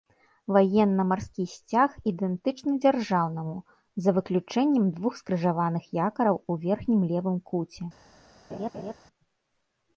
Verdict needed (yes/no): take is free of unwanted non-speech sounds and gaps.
no